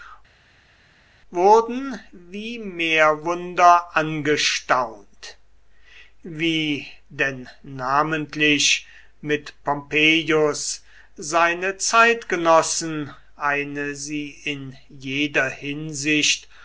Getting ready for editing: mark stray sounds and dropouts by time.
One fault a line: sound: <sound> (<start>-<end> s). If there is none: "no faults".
no faults